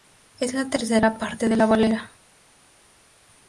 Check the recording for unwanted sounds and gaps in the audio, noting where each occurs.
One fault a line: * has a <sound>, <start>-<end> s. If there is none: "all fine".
all fine